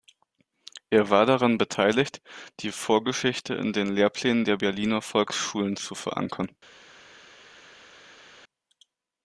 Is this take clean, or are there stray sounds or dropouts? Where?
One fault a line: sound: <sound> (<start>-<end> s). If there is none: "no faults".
no faults